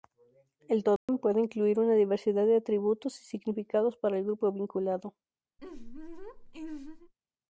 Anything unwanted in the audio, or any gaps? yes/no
yes